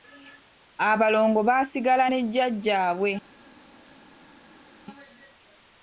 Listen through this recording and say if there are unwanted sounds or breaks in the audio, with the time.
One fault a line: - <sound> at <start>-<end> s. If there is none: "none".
none